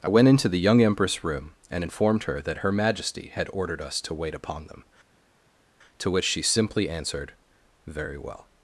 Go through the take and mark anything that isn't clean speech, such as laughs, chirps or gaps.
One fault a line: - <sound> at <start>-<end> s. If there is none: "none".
none